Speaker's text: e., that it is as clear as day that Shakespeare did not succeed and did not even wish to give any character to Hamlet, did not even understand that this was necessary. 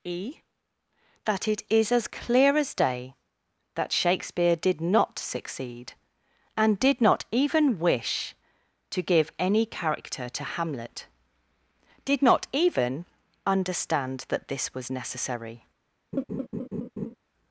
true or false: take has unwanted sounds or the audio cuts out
true